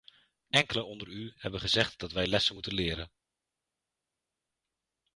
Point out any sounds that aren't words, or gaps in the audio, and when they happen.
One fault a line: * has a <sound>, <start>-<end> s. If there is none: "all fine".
all fine